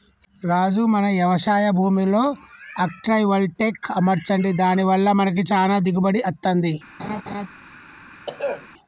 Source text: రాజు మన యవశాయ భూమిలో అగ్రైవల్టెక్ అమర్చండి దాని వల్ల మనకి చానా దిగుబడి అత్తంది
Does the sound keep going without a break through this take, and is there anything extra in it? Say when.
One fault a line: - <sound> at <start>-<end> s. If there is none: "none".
- laugh at 7.0-7.5 s
- throat clearing at 8.3-8.7 s